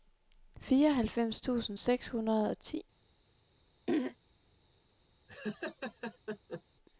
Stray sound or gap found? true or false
true